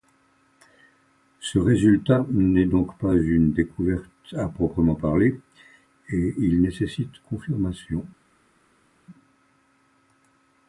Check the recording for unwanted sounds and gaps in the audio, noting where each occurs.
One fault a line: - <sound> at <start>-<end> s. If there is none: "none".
none